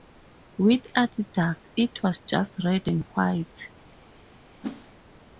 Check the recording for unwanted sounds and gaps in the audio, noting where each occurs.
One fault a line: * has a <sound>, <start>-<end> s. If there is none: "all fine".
* has a whoosh, 4.6-4.9 s